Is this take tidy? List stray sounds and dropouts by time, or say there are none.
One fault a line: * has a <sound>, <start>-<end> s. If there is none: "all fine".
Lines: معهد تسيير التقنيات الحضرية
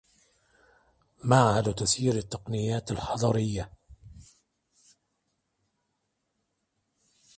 all fine